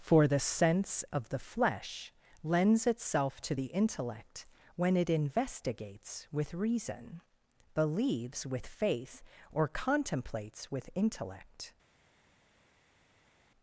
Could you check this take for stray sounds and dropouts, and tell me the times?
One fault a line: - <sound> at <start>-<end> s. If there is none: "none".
none